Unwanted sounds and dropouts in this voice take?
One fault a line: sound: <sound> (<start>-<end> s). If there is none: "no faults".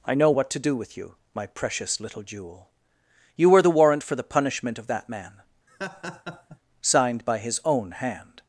sound: laugh (5.7-6.6 s)